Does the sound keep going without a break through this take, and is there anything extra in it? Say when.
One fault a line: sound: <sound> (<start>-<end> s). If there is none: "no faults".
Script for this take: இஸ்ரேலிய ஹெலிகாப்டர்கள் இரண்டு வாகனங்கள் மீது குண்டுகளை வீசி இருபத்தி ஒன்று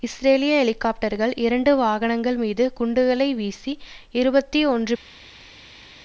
no faults